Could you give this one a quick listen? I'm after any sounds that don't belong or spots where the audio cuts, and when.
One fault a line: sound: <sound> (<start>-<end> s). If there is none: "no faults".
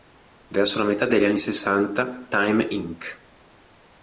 no faults